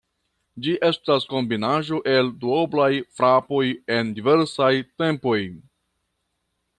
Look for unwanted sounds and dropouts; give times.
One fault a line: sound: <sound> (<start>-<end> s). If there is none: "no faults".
no faults